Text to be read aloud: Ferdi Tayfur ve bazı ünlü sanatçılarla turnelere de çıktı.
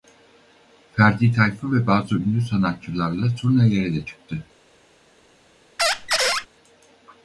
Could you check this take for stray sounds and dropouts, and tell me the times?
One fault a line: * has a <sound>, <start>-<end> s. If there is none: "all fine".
* has a squeak, 5.8-6.5 s